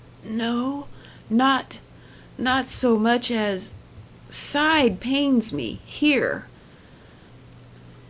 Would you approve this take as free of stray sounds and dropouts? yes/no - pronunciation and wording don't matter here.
yes